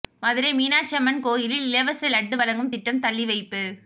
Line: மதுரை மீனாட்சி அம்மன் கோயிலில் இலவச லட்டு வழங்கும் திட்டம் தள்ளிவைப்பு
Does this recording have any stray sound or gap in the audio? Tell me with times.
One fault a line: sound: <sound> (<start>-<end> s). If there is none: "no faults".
no faults